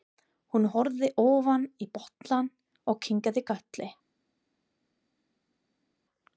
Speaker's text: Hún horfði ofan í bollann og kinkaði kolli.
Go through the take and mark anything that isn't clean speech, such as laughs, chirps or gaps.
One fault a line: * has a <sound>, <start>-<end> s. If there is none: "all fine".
all fine